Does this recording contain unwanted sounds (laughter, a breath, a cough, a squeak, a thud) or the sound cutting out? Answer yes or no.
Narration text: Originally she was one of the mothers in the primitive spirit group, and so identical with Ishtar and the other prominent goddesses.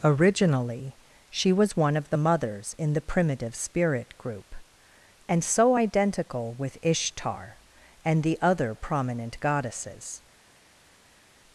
no